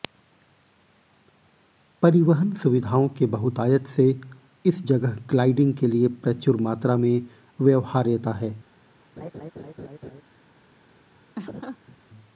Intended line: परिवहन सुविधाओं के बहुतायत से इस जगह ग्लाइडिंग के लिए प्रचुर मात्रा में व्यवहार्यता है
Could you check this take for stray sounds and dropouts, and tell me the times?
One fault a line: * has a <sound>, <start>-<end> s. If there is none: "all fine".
* has a laugh, 9.2-10.2 s
* has a laugh, 11.4-12.0 s